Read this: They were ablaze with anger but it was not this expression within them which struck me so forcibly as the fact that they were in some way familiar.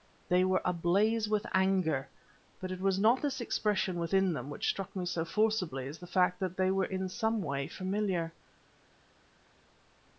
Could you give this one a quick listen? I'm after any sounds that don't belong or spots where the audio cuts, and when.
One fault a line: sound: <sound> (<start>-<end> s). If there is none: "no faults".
no faults